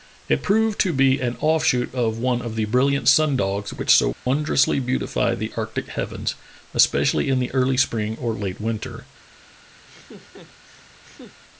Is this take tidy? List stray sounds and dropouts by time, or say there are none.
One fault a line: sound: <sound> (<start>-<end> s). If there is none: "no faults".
sound: dropout (4.1-4.3 s)
sound: laugh (9.8-11.4 s)